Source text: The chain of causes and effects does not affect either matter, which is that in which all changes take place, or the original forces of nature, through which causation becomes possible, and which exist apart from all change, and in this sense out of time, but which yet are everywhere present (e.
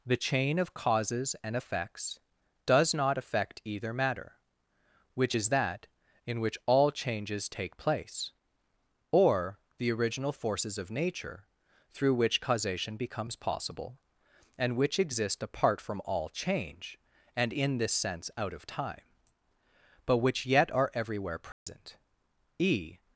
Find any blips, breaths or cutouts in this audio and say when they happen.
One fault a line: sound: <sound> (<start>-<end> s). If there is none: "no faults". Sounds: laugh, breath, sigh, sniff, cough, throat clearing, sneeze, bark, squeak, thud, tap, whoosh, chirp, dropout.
sound: dropout (21.5-21.7 s)